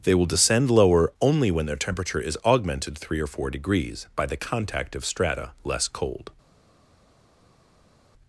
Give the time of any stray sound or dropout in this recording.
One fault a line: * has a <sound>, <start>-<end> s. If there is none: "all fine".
all fine